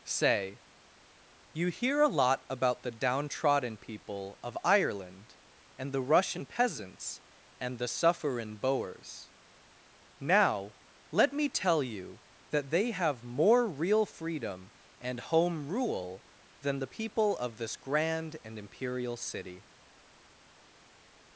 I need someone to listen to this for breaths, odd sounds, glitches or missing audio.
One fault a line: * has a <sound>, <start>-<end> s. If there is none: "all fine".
all fine